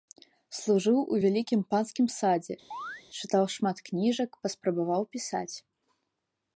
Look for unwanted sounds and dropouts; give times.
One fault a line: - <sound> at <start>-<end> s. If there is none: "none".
- chirp at 2.7-3.0 s